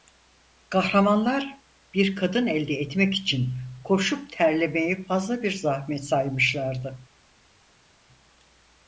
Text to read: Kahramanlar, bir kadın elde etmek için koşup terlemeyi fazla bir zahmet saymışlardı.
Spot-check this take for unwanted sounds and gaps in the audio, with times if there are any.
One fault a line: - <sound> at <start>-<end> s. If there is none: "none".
none